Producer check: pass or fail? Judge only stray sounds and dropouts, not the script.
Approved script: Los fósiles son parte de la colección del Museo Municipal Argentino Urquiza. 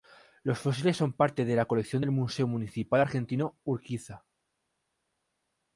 pass